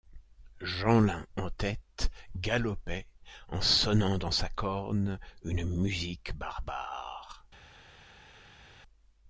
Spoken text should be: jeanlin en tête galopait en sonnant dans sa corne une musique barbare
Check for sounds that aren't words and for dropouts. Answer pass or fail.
pass